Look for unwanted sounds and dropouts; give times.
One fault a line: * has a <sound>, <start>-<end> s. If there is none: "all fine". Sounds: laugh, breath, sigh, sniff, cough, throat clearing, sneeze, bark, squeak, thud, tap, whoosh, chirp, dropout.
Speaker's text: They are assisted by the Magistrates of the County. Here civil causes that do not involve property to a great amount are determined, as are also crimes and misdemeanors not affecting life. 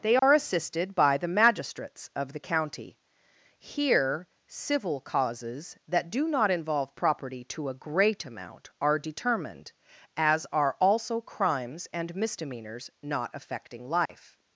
* has a dropout, 0.2-0.2 s
* has a dropout, 14.1-14.1 s